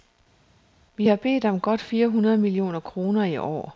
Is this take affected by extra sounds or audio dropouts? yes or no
no